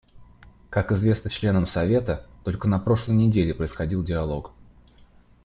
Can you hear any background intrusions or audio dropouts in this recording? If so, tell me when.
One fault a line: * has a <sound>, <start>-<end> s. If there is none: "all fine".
all fine